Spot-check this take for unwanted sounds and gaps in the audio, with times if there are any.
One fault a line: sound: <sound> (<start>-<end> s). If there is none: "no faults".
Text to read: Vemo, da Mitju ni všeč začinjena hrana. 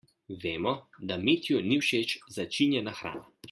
no faults